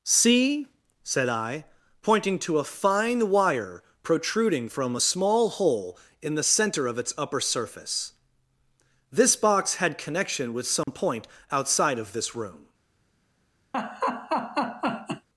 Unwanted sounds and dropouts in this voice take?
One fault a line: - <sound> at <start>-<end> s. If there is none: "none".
- dropout at 10.8-10.9 s
- laugh at 13.7-15.3 s